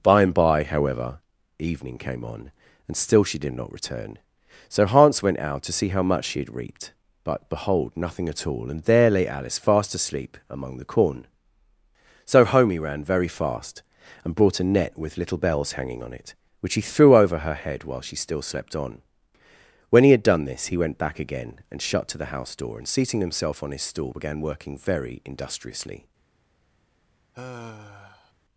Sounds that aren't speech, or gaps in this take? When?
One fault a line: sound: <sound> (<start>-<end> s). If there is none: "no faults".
sound: sigh (27.3-28.3 s)